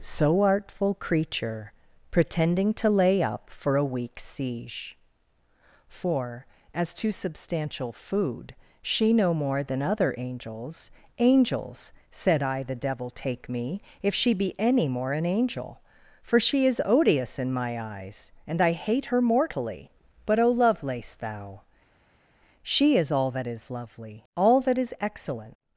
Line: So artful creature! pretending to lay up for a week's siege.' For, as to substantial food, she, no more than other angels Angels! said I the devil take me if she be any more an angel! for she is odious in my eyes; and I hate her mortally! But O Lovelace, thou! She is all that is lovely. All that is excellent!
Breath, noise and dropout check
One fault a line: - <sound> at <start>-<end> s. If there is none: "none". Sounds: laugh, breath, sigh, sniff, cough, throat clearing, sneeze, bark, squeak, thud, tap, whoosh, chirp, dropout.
none